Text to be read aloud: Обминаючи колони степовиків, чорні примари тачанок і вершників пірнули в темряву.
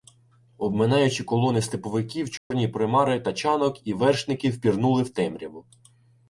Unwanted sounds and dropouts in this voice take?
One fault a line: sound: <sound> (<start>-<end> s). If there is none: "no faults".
sound: dropout (2.4-2.5 s)